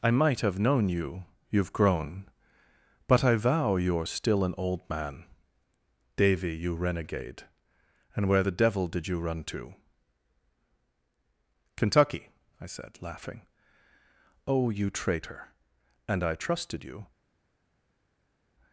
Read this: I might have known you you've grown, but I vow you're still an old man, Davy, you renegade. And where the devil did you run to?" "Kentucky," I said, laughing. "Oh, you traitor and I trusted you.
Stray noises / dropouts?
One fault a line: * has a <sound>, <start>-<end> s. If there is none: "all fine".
all fine